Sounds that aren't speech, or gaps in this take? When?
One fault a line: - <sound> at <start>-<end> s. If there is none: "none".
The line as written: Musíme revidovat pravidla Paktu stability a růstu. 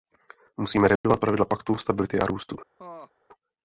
- dropout at 1.0-1.0 s
- laugh at 2.8-3.1 s